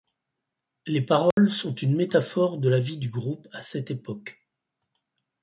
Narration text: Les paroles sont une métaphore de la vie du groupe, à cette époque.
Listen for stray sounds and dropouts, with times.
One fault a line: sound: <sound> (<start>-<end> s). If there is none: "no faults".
sound: dropout (1.3-1.4 s)